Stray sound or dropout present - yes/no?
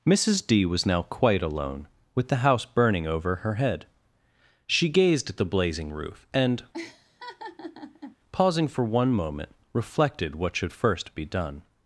yes